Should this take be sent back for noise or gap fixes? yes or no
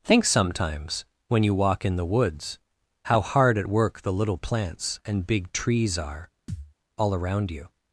yes